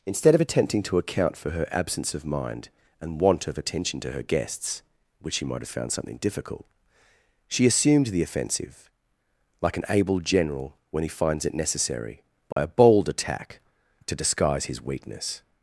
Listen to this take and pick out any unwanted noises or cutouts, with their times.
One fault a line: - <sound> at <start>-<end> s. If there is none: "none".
- dropout at 12.5-12.6 s